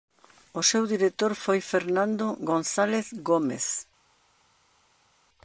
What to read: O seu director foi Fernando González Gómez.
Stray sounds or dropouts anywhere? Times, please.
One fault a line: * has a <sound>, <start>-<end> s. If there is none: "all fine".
all fine